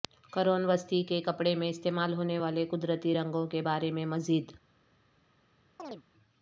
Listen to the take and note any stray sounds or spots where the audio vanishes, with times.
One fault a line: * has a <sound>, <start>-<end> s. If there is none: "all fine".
* has a chirp, 5.8-6.0 s